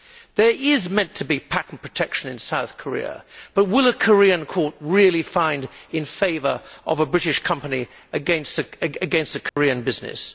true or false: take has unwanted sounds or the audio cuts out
true